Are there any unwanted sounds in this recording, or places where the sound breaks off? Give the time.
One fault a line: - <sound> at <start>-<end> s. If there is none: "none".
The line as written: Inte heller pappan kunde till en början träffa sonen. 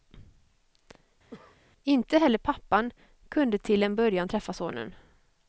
- cough at 1.3-1.6 s